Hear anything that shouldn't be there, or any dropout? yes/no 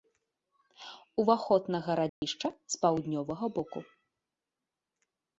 yes